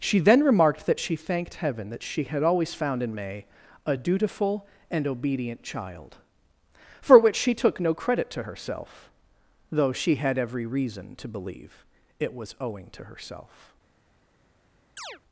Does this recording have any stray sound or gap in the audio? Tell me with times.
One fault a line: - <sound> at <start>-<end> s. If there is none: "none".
- chirp at 15.0-15.2 s